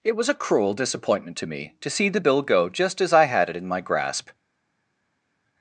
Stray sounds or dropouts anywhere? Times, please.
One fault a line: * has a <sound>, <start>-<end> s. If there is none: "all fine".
all fine